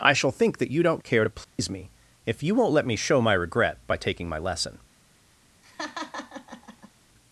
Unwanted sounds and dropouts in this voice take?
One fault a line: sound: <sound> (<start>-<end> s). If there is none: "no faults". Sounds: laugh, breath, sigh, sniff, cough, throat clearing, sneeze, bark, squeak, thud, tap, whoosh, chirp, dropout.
sound: dropout (1.4-1.6 s)
sound: laugh (5.6-6.9 s)